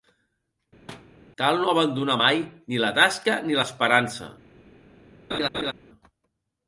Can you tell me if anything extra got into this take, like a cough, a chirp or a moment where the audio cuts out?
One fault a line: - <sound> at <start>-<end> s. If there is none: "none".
- thud at 0.9-1.1 s
- laugh at 5.3-5.7 s